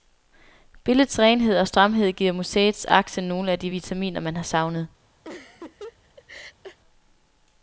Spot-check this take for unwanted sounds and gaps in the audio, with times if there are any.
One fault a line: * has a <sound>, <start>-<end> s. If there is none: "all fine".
* has a laugh, 5.2-6.8 s